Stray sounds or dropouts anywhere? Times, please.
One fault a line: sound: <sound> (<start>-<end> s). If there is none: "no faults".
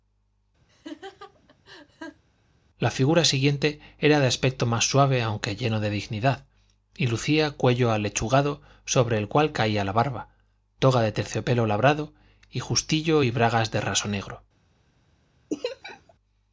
sound: laugh (0.7-2.2 s)
sound: laugh (15.5-16.1 s)